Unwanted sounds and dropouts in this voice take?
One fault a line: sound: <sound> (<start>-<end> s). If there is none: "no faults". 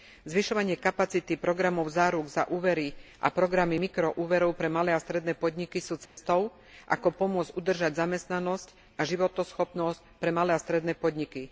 sound: dropout (6.1-6.2 s)